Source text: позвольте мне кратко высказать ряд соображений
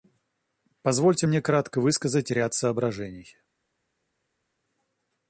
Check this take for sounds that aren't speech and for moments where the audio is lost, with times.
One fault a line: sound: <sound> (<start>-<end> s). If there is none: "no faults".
no faults